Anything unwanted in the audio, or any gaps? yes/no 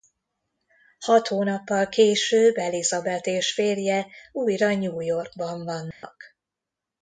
yes